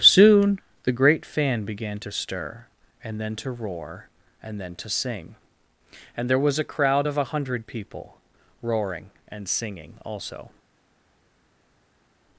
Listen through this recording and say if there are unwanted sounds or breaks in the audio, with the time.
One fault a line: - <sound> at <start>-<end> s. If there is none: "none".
none